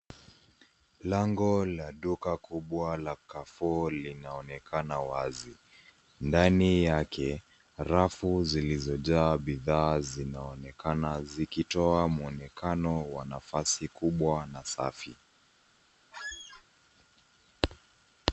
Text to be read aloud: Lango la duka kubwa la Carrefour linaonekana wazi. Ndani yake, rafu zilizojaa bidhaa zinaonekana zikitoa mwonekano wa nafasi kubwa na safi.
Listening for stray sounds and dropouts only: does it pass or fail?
fail